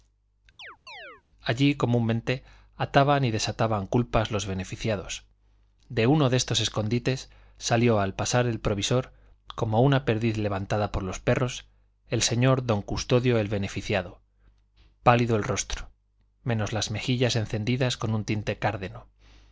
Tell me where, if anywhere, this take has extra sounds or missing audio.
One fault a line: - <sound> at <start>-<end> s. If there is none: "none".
- chirp at 0.6-1.2 s